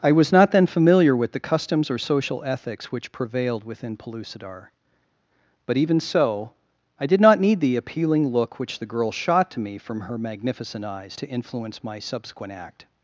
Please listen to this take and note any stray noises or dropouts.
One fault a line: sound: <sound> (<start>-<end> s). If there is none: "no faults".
no faults